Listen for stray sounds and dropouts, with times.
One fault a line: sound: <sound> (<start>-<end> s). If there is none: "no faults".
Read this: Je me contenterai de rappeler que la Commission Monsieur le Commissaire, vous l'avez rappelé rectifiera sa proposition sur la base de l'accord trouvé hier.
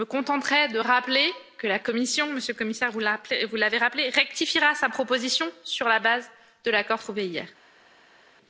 no faults